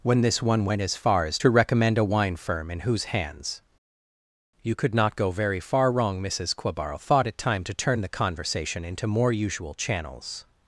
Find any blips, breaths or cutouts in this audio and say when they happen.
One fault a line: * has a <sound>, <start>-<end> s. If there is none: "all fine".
all fine